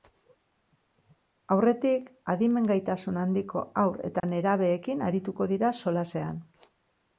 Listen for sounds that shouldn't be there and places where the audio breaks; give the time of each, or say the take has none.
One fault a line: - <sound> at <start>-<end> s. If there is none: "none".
- dropout at 4.2-4.2 s